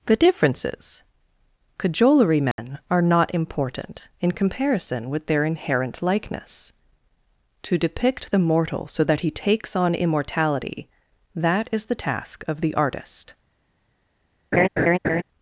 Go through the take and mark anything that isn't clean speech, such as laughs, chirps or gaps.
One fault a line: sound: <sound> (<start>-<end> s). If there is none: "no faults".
sound: dropout (2.5-2.6 s)
sound: laugh (14.5-15.2 s)